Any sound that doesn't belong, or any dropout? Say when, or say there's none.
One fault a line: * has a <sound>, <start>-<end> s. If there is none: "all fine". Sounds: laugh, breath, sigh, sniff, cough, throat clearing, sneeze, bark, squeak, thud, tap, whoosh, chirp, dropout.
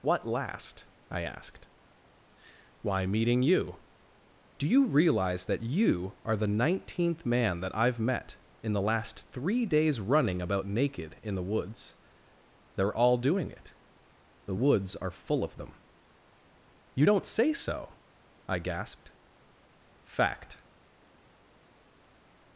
all fine